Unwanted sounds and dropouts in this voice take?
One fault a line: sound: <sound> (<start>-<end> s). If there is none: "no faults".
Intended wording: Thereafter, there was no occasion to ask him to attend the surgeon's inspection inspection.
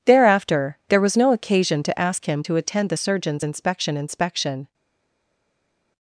no faults